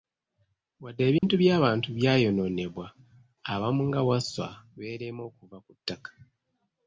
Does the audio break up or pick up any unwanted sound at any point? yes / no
yes